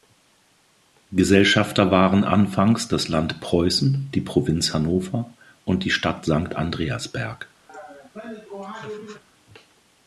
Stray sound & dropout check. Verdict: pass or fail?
fail